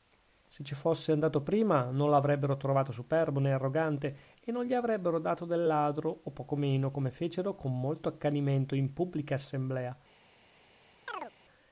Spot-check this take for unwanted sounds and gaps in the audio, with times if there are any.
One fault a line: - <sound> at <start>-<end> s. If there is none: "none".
- chirp at 11.1-11.3 s